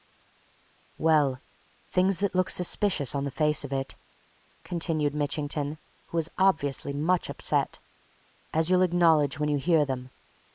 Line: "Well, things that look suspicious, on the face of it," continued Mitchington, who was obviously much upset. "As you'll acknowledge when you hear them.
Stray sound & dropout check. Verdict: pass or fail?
pass